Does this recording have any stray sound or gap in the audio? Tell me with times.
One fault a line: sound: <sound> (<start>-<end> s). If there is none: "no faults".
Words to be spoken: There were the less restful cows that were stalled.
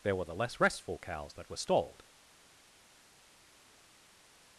no faults